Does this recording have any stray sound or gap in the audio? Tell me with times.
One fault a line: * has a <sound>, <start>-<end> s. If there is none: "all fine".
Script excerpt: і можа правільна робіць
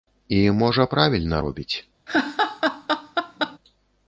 * has a laugh, 2.1-3.6 s